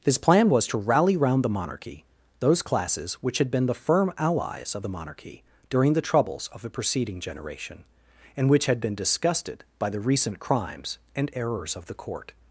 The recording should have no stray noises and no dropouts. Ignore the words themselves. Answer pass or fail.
pass